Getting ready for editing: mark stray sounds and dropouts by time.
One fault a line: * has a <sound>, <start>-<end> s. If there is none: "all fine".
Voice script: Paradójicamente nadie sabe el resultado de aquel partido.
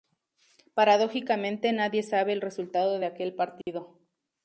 * has a dropout, 3.6-3.7 s